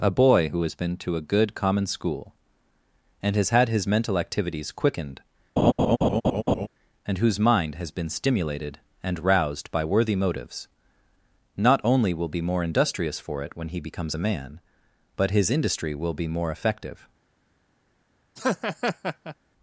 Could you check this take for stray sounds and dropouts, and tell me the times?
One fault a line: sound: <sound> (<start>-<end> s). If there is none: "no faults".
sound: laugh (5.6-6.7 s)
sound: laugh (18.4-19.4 s)